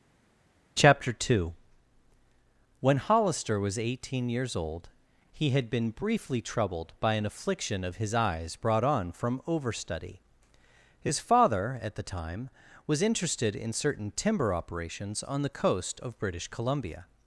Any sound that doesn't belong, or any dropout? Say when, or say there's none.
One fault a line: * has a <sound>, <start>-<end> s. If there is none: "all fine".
all fine